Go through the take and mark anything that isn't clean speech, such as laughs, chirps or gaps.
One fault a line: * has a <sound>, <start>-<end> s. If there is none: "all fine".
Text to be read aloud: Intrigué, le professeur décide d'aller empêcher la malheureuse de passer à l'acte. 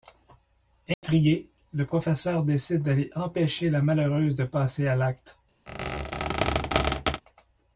* has a dropout, 0.9-1.0 s
* has a squeak, 5.7-7.2 s